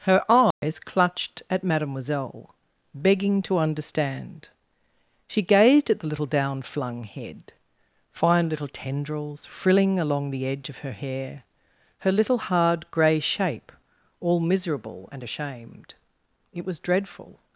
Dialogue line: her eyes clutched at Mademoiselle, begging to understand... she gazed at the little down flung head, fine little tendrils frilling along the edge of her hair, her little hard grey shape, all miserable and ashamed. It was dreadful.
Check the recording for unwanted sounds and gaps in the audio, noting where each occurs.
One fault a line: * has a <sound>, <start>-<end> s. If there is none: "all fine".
* has a dropout, 0.5-0.6 s